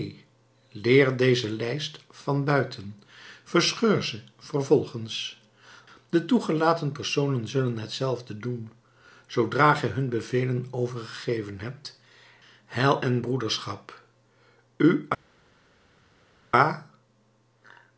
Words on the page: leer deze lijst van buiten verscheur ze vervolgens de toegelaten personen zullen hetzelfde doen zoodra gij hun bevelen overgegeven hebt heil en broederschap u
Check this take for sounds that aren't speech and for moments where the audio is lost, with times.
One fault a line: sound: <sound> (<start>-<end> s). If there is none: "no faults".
no faults